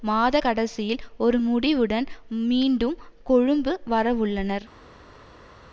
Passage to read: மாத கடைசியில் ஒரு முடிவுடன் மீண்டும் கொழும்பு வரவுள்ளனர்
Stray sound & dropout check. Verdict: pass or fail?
pass